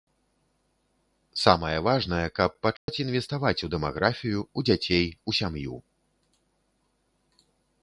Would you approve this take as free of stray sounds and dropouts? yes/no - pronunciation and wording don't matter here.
no